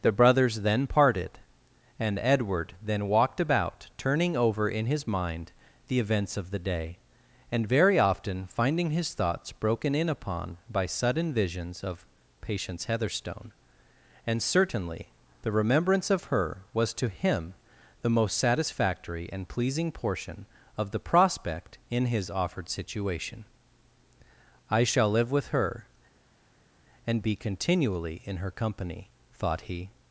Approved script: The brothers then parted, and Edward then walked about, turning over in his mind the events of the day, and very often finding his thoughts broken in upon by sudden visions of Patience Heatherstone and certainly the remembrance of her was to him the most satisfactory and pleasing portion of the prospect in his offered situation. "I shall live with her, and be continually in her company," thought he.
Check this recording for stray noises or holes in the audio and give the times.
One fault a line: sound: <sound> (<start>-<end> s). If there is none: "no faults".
no faults